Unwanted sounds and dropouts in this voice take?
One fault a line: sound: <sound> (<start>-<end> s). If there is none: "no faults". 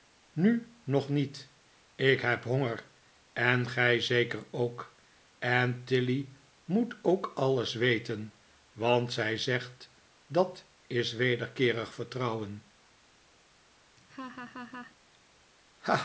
sound: laugh (14.0-15.0 s)